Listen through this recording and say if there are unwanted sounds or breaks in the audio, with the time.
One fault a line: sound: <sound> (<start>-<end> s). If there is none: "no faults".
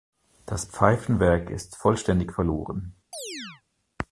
sound: chirp (3.1-3.6 s)